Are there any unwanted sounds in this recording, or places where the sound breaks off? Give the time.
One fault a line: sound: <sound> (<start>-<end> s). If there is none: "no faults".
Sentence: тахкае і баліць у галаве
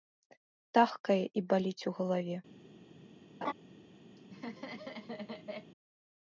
sound: laugh (3.4-3.5 s)
sound: laugh (4.2-5.7 s)